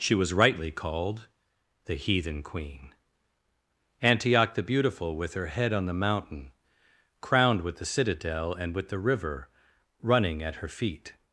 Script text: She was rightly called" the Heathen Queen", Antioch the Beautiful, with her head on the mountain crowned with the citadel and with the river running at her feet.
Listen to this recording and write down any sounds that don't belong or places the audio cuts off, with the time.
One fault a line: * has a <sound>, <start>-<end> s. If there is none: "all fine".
all fine